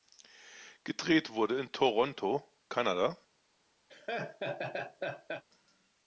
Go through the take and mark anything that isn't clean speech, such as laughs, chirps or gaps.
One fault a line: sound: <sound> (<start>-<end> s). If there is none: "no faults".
sound: laugh (3.9-5.4 s)